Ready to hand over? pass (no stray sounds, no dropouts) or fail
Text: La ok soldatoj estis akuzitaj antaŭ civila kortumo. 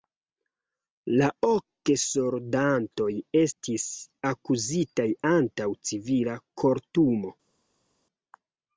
pass